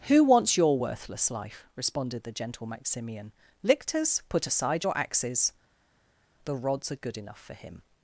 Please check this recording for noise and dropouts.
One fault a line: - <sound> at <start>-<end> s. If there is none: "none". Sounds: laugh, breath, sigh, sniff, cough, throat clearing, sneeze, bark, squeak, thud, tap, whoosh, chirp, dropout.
none